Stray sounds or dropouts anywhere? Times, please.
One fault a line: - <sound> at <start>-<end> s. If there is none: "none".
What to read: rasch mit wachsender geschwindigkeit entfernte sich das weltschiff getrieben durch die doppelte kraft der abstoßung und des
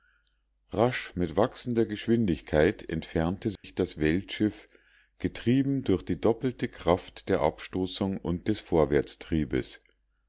- dropout at 3.6-3.6 s